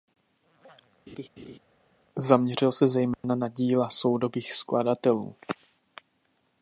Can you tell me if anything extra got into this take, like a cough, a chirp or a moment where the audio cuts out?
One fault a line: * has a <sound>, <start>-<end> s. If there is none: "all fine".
* has a laugh, 1.1-1.6 s
* has a dropout, 3.1-3.2 s